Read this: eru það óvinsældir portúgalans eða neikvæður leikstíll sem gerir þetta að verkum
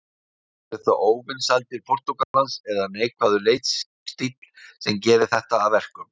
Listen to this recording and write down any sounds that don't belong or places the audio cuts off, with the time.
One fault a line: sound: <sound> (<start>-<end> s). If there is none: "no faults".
sound: dropout (2.2-2.3 s)